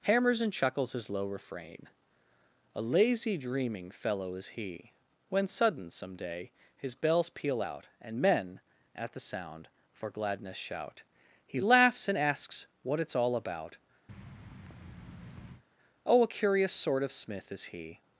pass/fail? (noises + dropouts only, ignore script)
fail